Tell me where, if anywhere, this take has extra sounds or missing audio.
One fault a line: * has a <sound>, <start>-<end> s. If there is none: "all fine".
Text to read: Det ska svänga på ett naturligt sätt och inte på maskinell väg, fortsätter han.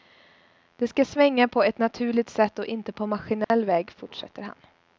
* has a dropout, 3.4-3.5 s